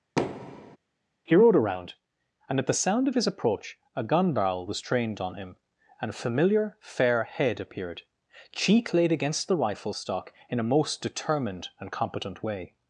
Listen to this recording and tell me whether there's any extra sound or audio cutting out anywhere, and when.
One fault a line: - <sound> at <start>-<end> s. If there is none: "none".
- thud at 0.2-0.8 s